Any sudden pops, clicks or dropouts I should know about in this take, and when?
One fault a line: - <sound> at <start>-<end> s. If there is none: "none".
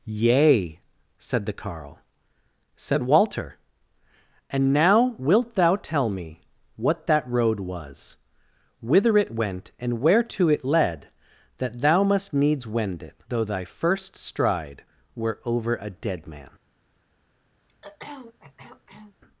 - throat clearing at 17.6-19.2 s